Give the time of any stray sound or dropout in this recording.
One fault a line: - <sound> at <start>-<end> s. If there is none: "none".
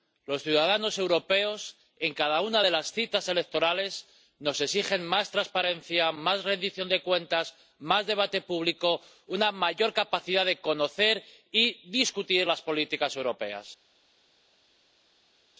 none